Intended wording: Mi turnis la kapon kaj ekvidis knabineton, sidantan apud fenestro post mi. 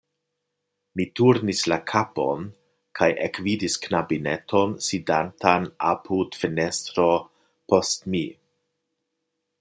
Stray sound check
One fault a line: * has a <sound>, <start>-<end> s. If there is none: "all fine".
all fine